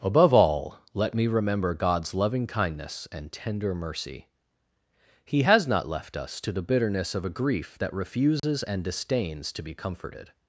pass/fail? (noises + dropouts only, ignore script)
fail